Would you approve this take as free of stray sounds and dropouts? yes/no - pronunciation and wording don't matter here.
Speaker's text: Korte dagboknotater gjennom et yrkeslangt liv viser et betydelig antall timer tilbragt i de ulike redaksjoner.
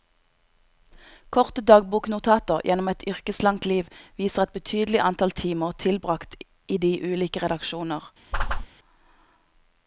no